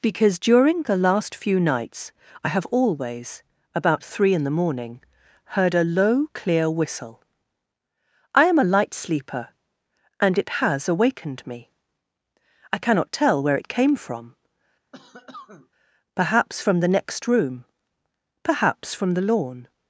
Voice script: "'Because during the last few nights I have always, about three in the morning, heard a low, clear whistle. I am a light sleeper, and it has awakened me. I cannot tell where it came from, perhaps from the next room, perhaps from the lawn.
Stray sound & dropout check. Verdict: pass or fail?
fail